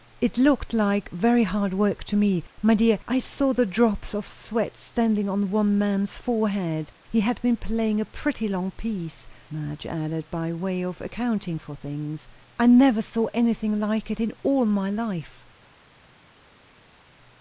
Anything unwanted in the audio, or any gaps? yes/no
no